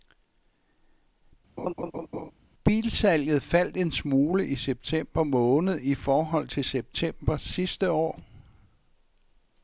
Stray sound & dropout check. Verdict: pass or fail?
fail